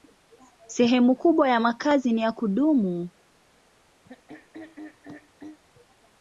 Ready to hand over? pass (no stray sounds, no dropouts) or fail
fail